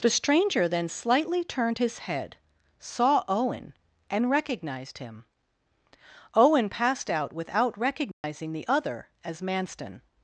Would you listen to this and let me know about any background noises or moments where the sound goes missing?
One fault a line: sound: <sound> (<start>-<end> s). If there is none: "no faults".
sound: dropout (8.1-8.2 s)